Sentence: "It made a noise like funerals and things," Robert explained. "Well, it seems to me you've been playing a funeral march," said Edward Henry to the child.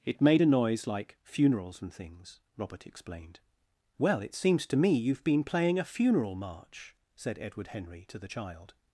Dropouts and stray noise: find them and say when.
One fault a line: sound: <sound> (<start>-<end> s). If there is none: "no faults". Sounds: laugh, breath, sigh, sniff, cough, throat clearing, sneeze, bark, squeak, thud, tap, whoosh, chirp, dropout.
no faults